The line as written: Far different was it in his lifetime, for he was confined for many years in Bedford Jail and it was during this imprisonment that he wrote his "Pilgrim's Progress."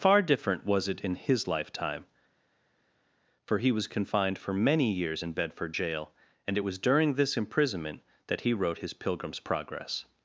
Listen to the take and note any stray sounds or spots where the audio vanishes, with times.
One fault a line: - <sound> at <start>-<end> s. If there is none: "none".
none